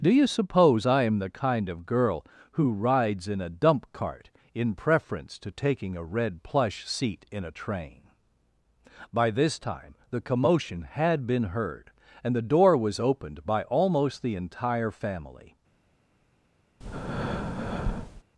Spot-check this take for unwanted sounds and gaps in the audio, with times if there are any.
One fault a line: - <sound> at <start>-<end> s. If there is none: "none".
- breath at 16.8-18.2 s